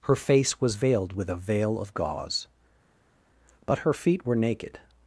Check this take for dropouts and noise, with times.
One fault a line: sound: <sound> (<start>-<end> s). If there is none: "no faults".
no faults